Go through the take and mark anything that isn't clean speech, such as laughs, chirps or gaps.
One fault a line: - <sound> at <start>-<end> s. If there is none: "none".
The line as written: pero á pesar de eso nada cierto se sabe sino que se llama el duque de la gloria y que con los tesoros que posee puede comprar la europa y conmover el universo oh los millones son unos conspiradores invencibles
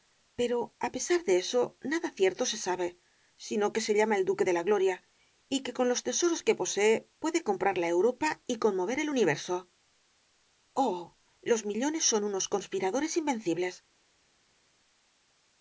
none